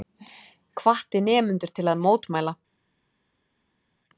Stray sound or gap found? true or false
false